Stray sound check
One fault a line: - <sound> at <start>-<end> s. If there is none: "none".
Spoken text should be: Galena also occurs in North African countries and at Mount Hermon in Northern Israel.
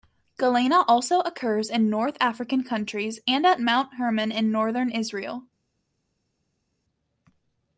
none